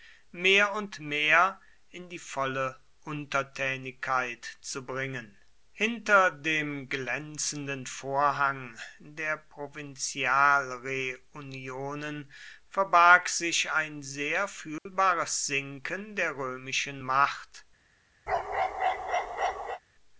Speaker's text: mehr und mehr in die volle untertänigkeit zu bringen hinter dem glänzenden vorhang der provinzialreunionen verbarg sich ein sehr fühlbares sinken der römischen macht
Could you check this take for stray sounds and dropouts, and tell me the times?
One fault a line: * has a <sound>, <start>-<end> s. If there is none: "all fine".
* has a dropout, 14.8-14.9 s
* has a bark, 18.3-19.8 s